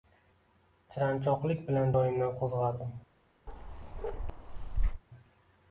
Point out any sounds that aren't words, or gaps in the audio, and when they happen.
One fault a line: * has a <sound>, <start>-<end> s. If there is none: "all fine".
* has a bark, 3.5-5.0 s